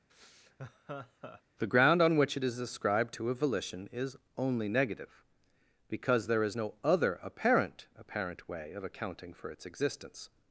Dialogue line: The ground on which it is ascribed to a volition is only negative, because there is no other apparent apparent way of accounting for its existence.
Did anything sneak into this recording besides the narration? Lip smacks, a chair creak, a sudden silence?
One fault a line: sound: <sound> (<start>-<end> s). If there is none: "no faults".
sound: laugh (0.1-1.4 s)